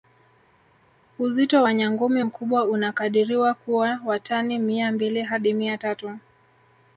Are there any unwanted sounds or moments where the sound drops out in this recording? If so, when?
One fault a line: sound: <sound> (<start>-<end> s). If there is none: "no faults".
no faults